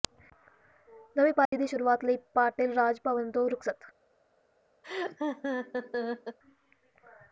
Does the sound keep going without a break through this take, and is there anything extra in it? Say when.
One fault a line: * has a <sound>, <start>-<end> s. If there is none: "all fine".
* has a dropout, 1.4-1.5 s
* has a laugh, 4.8-6.4 s